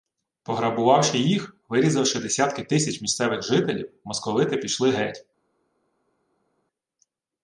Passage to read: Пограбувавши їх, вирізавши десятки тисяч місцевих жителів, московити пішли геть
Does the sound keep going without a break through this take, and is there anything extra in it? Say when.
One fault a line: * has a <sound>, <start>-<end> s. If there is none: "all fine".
all fine